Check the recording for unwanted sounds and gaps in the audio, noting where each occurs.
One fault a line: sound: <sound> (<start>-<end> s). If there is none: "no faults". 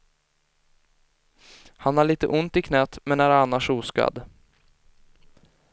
no faults